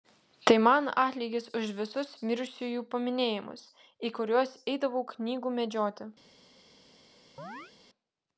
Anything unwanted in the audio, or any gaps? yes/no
yes